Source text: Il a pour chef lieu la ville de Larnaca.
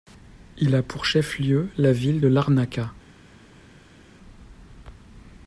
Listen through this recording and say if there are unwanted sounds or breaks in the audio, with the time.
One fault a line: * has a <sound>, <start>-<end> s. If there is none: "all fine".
all fine